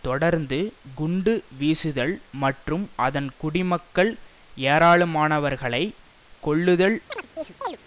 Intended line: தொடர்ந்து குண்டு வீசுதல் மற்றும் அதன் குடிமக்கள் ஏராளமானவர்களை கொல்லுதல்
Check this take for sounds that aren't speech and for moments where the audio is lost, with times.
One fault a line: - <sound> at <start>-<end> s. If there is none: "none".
- chirp at 7.1-7.8 s